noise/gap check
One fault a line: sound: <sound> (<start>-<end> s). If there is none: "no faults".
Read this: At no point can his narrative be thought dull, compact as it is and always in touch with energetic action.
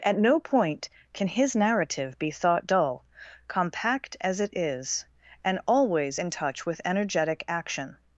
no faults